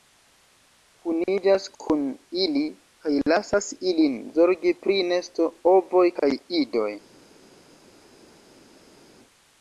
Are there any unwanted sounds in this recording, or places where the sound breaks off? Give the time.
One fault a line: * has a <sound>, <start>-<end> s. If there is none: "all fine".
all fine